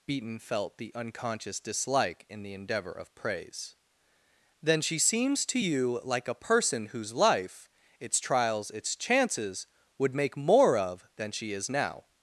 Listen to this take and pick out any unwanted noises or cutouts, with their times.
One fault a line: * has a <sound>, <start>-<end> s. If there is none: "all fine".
all fine